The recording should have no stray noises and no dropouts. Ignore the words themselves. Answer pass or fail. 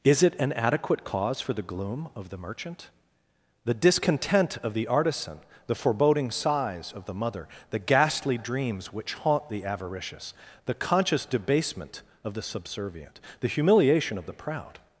pass